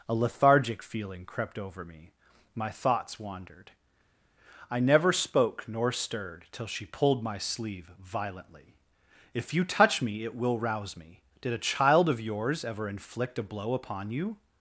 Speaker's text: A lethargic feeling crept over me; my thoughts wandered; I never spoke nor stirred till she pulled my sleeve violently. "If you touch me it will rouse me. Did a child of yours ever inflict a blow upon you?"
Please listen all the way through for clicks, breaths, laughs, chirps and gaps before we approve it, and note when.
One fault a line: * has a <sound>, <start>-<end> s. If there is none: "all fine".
all fine